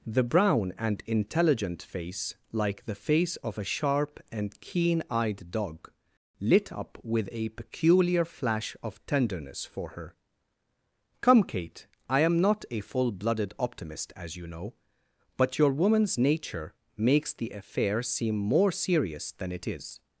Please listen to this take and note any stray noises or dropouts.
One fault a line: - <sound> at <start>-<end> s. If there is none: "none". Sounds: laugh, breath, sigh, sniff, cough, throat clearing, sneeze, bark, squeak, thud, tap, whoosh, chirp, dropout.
none